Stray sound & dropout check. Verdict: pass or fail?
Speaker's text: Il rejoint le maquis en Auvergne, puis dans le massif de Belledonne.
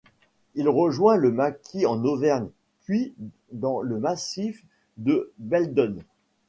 pass